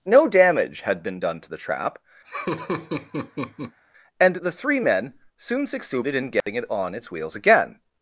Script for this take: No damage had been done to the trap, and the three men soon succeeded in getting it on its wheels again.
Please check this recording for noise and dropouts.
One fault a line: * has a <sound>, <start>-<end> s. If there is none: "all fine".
* has a laugh, 2.2-3.8 s
* has a dropout, 6.4-6.5 s